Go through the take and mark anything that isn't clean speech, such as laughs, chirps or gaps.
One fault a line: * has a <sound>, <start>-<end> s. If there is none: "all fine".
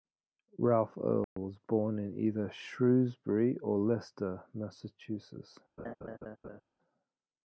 * has a dropout, 1.2-1.4 s
* has a laugh, 5.8-6.6 s